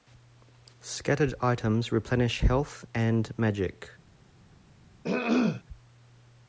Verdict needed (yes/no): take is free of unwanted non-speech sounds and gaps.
no